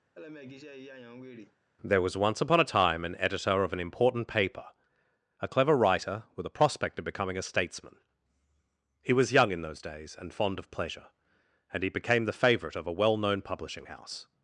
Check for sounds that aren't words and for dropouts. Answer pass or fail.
fail